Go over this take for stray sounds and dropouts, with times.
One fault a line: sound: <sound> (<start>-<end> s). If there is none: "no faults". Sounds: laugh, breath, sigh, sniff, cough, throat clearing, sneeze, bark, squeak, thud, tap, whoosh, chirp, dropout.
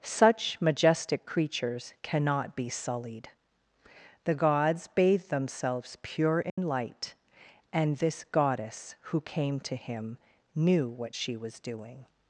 sound: dropout (6.5-6.6 s)